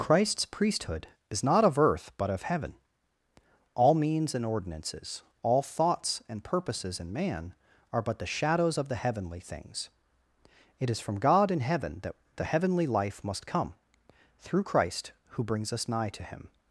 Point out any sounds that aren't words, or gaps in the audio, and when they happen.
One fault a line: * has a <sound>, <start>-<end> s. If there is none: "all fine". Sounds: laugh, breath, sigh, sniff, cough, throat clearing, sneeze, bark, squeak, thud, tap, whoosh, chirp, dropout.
all fine